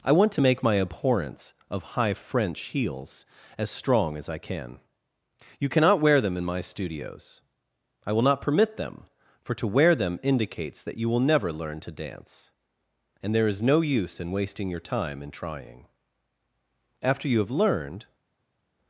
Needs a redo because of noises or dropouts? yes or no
no